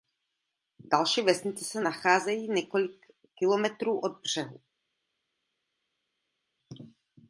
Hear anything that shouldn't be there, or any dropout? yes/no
no